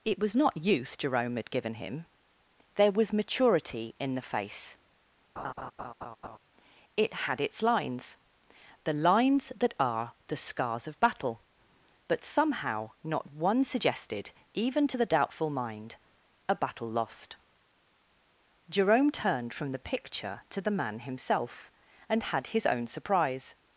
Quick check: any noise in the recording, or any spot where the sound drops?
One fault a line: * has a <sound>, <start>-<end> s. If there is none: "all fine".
* has a laugh, 5.4-6.4 s